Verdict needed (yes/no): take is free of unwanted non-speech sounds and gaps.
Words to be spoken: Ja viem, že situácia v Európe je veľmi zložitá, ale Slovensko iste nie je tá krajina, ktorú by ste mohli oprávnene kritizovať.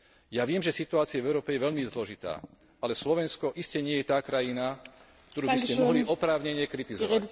yes